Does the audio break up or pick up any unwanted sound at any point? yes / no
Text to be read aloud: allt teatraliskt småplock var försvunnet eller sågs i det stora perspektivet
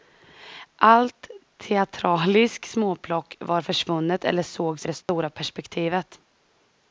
yes